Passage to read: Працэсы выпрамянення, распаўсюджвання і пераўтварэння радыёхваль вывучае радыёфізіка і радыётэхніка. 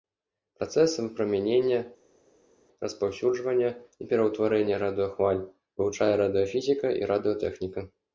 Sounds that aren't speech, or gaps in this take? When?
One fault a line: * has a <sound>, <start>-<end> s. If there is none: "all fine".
all fine